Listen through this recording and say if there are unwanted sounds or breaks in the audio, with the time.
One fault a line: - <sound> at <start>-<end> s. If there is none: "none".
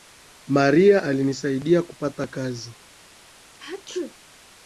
- sneeze at 3.5-4.1 s